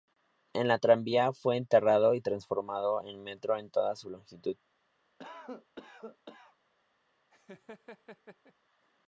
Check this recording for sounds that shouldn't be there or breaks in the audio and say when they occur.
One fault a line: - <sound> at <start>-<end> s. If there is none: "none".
- cough at 5.2-6.6 s
- laugh at 7.3-8.5 s